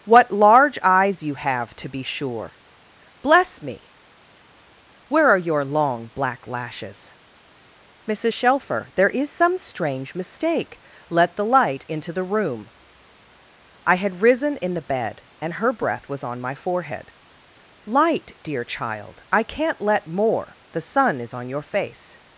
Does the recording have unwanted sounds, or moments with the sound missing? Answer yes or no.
no